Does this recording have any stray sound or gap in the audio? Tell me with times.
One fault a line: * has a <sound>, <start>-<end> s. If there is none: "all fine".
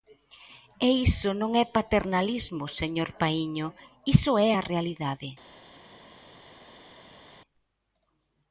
all fine